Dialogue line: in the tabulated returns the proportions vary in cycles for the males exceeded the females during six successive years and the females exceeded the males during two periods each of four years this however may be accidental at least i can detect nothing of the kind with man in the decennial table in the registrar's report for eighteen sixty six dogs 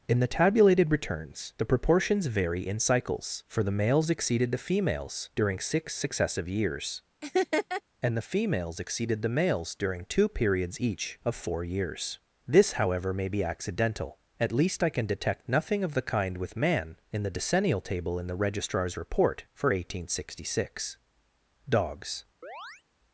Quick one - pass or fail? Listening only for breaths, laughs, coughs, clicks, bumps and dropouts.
fail